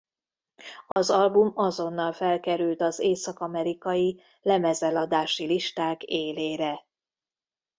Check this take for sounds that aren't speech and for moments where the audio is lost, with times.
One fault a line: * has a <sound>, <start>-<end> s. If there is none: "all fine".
* has a dropout, 0.9-1.0 s